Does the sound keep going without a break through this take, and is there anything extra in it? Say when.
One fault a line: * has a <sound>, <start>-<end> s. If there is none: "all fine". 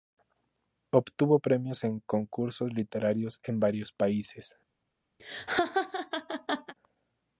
* has a laugh, 5.2-6.7 s